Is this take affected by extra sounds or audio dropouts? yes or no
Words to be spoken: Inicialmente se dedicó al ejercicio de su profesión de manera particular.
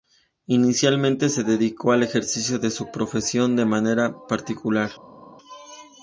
no